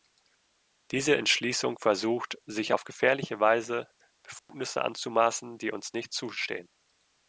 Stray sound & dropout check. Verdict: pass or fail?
fail